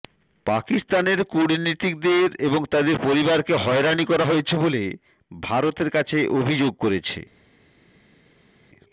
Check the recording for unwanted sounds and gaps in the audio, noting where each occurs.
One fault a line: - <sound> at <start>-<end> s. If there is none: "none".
none